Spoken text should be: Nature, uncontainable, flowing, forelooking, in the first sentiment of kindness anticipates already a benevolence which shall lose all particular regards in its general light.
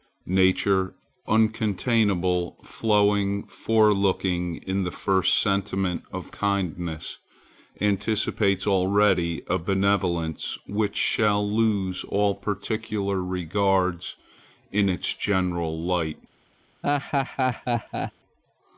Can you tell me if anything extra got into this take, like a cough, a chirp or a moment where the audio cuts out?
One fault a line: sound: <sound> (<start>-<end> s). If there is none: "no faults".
sound: laugh (16.8-18.1 s)